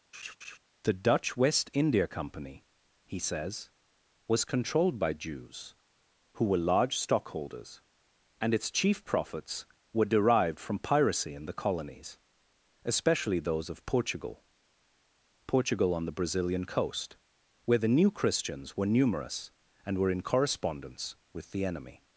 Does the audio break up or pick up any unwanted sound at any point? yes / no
yes